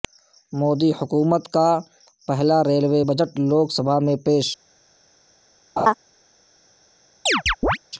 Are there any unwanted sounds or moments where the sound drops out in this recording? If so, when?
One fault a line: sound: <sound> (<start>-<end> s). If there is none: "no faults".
sound: laugh (5.8-5.9 s)
sound: chirp (7.3-7.8 s)